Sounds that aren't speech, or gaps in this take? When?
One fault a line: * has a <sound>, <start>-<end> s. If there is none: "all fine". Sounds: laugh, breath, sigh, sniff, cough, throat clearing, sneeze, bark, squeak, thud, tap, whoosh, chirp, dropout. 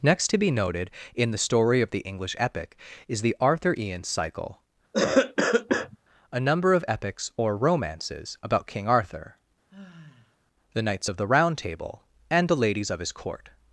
* has a cough, 4.9-6.0 s
* has a sigh, 9.7-10.4 s